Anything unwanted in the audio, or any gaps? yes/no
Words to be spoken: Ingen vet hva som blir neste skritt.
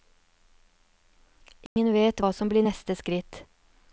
yes